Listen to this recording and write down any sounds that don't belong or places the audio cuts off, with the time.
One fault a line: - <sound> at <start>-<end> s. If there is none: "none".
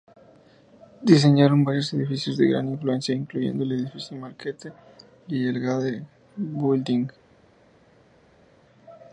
none